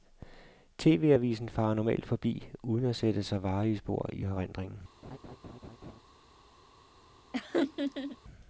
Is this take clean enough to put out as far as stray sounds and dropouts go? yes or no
no